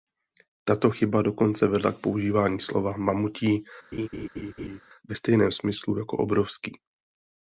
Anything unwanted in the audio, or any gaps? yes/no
yes